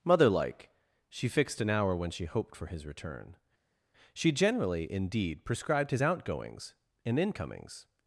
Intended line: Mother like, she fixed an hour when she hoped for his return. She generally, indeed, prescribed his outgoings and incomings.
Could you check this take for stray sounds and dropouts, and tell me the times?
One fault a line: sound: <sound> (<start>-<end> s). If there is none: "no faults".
no faults